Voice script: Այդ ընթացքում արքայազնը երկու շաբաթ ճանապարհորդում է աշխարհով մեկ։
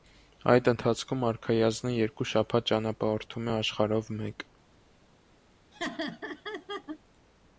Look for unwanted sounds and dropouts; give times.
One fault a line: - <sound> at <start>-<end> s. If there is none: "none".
- laugh at 5.7-7.0 s